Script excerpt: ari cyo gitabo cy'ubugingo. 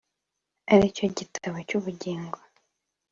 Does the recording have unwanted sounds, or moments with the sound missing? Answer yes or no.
no